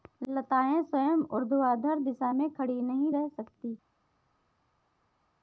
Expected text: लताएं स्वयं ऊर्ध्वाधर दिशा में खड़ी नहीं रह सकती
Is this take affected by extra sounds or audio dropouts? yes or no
no